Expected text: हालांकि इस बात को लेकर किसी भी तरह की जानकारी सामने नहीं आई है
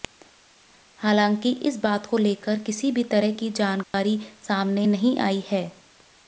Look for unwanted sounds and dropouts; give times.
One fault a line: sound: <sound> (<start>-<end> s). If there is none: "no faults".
sound: dropout (3.8-3.9 s)